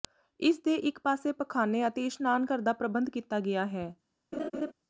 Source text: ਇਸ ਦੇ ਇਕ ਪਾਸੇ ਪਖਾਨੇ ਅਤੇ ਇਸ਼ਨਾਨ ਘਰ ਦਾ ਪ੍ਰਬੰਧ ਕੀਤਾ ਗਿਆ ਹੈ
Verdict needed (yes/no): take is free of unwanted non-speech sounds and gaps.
no